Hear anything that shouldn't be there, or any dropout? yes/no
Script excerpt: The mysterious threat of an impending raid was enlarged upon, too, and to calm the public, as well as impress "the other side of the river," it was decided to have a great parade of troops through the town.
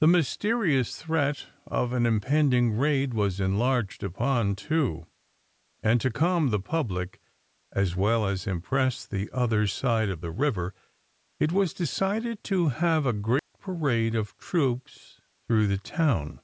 yes